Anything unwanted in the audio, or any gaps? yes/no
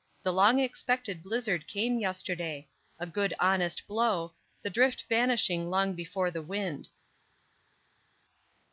no